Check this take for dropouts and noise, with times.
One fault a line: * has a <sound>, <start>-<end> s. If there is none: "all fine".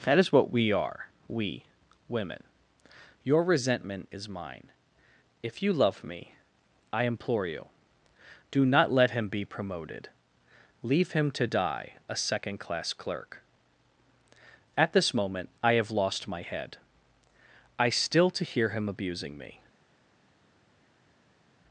all fine